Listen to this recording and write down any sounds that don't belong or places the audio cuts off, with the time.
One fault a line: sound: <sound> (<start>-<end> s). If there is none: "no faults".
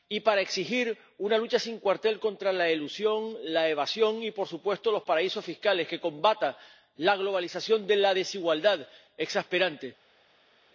no faults